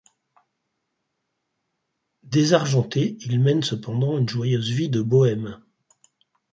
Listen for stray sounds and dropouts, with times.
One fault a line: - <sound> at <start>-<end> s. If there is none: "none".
none